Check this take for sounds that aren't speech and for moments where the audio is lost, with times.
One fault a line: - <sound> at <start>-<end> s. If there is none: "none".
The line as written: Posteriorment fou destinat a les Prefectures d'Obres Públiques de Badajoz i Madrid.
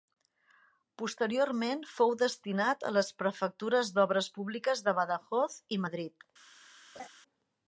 - laugh at 6.9-7.1 s